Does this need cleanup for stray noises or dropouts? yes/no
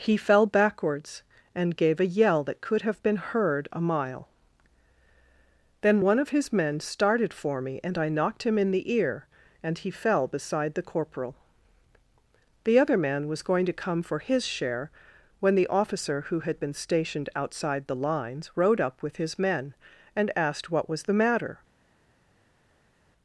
no